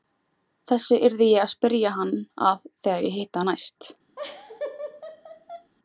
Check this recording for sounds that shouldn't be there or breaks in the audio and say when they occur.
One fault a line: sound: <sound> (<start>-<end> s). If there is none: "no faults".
sound: laugh (4.2-5.7 s)